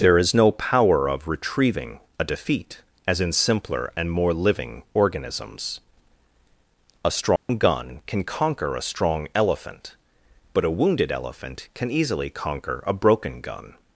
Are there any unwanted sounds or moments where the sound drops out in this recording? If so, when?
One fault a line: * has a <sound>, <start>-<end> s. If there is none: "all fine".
* has a dropout, 7.4-7.5 s